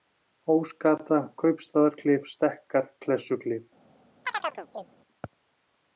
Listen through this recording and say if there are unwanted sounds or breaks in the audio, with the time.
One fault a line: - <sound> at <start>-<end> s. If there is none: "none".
- chirp at 4.3-5.0 s